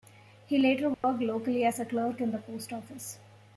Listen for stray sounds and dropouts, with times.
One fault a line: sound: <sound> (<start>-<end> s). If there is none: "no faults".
sound: dropout (0.9-1.0 s)